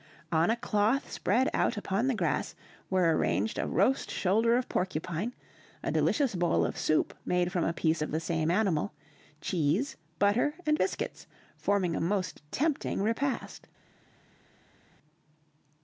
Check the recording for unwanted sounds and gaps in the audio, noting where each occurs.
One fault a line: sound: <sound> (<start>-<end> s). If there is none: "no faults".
no faults